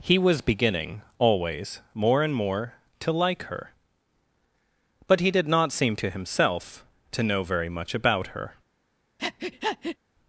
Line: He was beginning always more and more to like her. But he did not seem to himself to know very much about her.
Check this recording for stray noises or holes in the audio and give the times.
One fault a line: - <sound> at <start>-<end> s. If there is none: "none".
- breath at 9.2-10.0 s